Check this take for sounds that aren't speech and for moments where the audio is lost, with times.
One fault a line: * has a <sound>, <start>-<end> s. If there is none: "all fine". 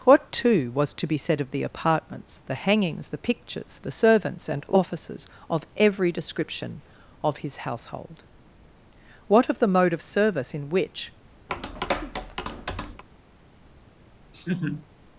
* has a tap, 11.5-13.0 s
* has a laugh, 14.3-14.9 s